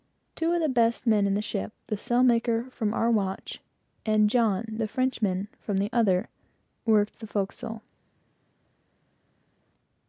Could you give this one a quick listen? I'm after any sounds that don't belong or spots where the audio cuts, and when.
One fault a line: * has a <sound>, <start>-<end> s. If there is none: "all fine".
all fine